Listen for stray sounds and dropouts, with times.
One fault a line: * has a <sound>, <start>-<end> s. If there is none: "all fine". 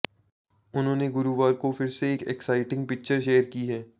all fine